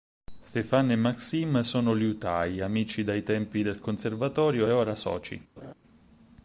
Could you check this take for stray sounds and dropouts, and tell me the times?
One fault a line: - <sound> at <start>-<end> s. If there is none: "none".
- laugh at 5.6-5.7 s